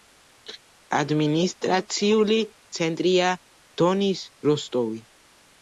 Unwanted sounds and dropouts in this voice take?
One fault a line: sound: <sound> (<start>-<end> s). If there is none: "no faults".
no faults